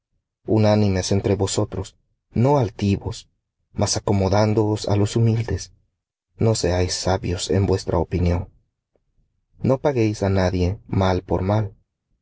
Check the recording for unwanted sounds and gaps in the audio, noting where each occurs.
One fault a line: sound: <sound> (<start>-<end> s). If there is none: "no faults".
no faults